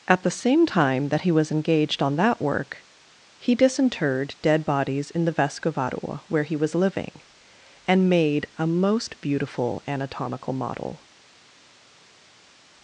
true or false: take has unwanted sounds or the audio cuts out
false